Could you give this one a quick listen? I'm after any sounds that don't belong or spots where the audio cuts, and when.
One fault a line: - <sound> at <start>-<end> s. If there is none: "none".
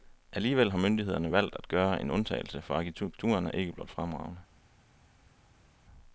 none